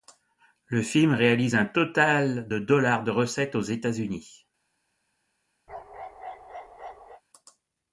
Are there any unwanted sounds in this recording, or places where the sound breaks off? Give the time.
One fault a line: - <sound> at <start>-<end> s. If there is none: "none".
- bark at 5.7-7.2 s